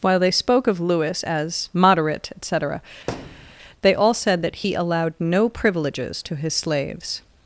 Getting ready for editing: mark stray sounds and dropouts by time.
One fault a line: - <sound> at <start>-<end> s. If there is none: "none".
- thud at 3.1-3.6 s